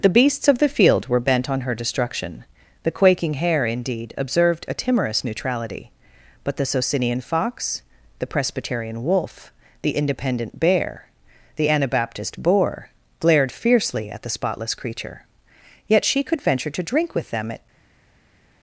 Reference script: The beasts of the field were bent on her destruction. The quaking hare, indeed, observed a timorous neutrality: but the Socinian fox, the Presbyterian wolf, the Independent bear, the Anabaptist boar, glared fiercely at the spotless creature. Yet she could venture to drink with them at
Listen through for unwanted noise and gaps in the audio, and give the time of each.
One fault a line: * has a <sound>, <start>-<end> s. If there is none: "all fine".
all fine